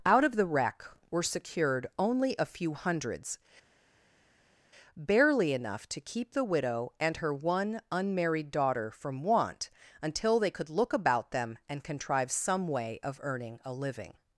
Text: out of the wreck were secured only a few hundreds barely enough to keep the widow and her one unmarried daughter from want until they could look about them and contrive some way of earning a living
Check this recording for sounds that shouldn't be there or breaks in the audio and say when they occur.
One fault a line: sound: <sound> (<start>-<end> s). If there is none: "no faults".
no faults